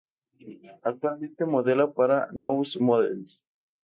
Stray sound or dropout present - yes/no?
yes